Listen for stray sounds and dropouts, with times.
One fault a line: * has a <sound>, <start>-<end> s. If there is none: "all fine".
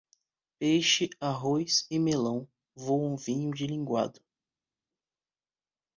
all fine